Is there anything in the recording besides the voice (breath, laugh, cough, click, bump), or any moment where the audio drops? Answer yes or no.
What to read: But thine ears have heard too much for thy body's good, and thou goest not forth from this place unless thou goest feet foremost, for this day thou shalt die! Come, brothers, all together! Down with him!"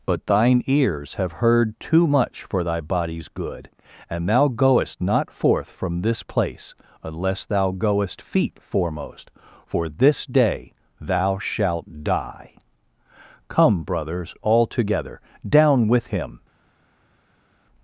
no